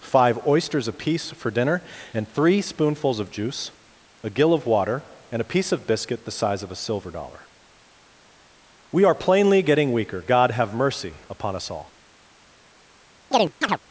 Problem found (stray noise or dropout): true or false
true